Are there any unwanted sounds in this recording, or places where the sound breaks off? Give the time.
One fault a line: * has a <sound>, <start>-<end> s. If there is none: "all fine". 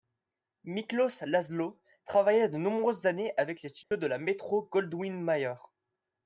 * has a dropout, 3.8-3.9 s